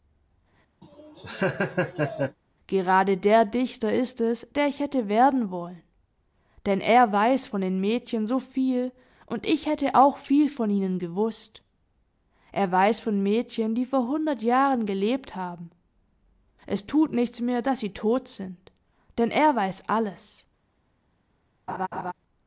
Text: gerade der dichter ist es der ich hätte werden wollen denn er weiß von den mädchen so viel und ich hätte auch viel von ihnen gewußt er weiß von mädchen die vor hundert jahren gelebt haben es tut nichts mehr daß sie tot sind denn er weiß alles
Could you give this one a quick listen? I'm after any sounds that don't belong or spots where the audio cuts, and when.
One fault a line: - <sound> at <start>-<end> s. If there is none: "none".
- laugh at 0.8-2.4 s
- laugh at 21.7-22.1 s